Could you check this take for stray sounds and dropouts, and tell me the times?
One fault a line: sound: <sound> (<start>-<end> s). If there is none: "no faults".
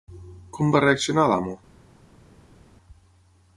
no faults